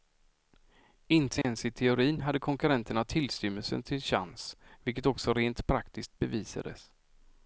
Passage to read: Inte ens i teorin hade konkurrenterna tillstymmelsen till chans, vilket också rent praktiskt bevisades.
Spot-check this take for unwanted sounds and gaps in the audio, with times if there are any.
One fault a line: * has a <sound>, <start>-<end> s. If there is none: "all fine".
* has a dropout, 1.4-1.4 s